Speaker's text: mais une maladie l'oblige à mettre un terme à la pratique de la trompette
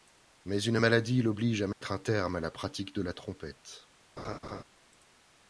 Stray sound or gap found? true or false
true